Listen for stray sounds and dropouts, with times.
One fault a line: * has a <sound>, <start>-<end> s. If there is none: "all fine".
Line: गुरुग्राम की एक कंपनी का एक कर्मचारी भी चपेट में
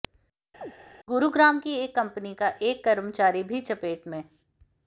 * has a chirp, 0.6-0.7 s